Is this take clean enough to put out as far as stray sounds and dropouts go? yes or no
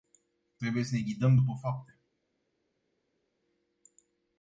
yes